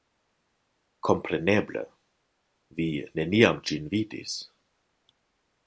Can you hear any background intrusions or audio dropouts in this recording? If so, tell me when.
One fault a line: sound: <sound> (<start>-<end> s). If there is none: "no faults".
no faults